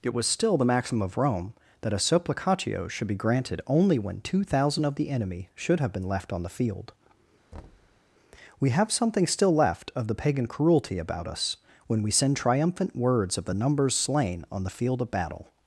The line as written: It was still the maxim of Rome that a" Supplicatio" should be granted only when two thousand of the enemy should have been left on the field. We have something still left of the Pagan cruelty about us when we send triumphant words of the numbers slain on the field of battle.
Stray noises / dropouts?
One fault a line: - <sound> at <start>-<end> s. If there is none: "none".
- thud at 7.5-8.0 s